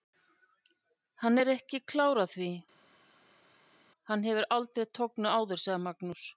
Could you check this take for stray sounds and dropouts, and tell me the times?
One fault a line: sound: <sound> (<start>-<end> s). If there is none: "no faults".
no faults